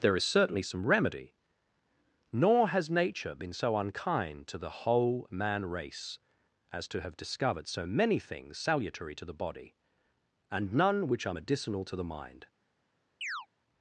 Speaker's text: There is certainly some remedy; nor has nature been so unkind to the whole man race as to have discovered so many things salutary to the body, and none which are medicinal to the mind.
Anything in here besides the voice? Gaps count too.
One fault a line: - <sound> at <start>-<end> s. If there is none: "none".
- chirp at 13.2-13.5 s